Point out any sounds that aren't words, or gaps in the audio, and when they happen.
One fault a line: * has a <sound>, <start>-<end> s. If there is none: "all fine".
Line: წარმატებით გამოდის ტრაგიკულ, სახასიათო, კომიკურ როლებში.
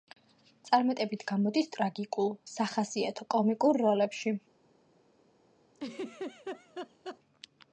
* has a laugh, 5.7-7.2 s